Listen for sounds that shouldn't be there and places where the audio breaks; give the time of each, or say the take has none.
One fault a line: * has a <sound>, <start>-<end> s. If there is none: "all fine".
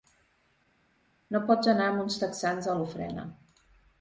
all fine